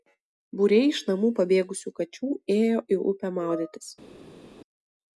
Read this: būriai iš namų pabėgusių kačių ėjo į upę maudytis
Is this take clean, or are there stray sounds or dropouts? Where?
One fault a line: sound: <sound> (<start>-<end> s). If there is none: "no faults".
no faults